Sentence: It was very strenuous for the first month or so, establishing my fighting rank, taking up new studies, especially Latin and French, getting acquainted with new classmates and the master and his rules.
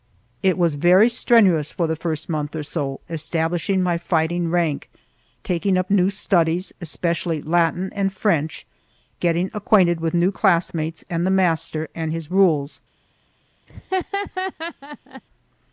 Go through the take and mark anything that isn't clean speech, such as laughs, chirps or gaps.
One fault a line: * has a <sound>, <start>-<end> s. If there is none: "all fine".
* has a laugh, 13.7-15.2 s